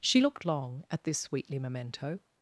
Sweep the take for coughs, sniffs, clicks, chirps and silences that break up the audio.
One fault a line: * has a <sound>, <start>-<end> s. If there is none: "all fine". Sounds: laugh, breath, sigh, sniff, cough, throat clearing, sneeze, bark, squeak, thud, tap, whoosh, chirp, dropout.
all fine